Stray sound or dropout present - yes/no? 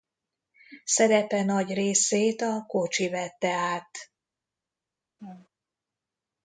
yes